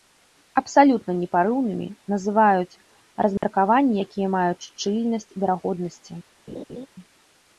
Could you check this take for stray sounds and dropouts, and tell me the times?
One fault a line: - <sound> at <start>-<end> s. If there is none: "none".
- dropout at 3.4-3.4 s
- laugh at 6.5-6.9 s